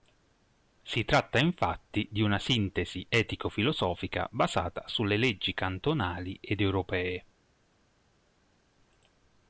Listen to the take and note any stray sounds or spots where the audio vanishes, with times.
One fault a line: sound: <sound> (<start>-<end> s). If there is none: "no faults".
no faults